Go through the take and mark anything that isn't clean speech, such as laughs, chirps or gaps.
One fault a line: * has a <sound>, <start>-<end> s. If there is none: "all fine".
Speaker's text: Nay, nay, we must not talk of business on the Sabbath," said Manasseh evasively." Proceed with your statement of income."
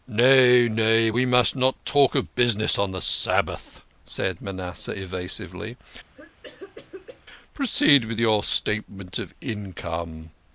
* has a cough, 6.1-7.3 s